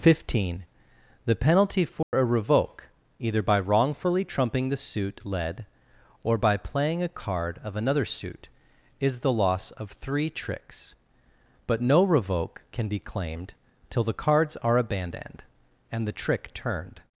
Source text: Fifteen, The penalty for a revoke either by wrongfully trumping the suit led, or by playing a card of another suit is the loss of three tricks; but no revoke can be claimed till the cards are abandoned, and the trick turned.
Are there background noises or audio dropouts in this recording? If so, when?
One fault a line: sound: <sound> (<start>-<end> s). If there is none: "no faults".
sound: dropout (2.0-2.1 s)